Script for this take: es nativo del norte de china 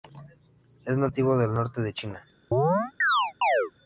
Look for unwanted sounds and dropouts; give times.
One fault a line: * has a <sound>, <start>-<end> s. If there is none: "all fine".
* has a chirp, 2.5-3.7 s